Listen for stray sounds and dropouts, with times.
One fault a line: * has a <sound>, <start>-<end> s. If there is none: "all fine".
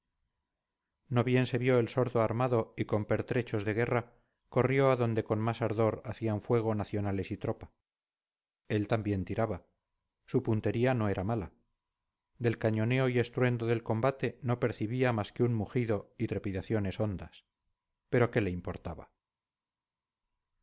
all fine